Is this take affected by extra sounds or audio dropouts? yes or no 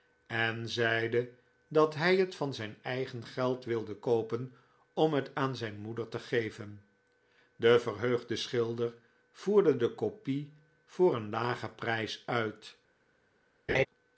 yes